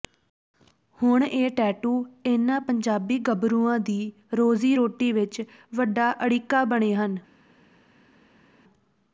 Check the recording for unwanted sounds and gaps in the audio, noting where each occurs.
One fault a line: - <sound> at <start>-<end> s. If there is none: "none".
none